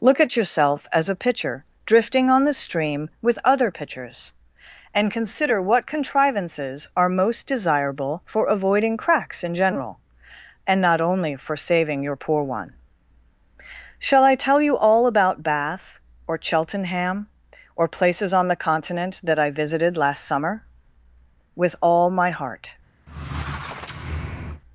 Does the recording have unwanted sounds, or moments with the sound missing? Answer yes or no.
yes